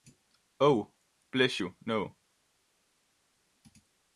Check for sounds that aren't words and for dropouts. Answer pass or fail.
pass